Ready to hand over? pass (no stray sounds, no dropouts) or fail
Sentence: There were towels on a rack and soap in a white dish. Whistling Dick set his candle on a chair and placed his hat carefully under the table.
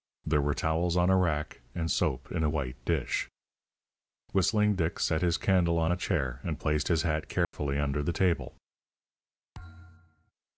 fail